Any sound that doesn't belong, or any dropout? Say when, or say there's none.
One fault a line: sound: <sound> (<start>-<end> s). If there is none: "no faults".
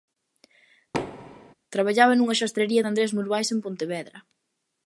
sound: thud (0.9-1.5 s)